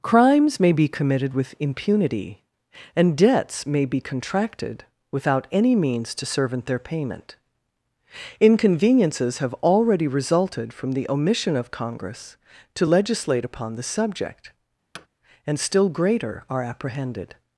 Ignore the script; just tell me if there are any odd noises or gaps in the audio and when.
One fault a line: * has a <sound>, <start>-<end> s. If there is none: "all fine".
* has a thud, 14.9-15.1 s